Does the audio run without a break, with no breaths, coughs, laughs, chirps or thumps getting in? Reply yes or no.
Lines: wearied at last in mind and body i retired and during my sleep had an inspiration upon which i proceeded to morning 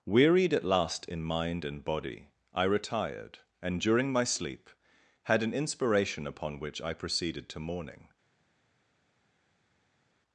yes